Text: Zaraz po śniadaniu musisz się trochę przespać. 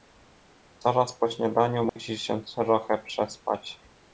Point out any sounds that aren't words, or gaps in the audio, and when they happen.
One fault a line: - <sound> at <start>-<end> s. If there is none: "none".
- dropout at 1.9-2.0 s